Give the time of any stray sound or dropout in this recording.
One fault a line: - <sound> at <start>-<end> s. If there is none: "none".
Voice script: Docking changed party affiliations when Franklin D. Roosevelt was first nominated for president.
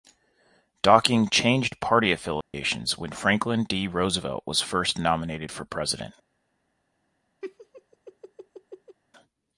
- dropout at 2.4-2.5 s
- laugh at 7.4-9.0 s